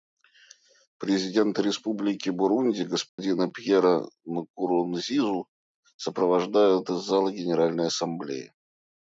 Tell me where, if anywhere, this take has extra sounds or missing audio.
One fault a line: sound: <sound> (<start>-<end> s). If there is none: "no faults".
sound: dropout (3.1-3.2 s)